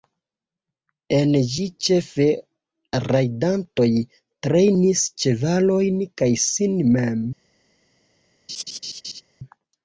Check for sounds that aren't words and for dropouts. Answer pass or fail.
fail